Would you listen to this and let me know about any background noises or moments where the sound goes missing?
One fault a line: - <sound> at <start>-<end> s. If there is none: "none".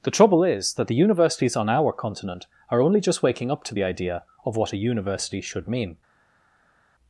none